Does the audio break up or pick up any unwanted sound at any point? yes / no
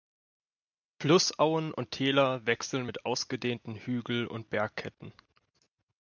no